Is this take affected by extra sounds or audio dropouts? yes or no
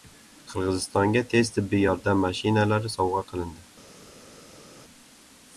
no